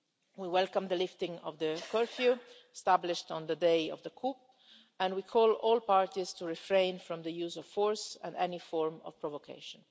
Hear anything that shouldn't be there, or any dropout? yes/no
no